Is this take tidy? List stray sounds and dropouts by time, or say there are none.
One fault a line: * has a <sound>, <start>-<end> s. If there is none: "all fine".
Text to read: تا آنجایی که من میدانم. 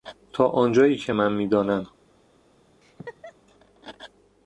* has a laugh, 2.8-3.3 s